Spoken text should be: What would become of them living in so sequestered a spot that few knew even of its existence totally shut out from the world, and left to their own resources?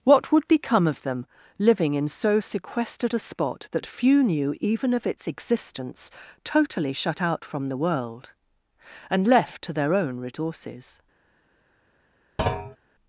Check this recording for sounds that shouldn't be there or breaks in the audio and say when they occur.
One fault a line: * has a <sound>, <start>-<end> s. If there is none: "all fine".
* has a thud, 12.4-12.8 s